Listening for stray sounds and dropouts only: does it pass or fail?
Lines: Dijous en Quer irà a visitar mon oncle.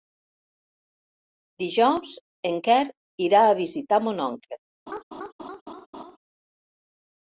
fail